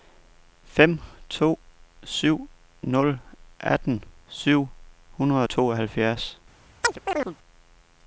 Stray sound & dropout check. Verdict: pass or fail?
fail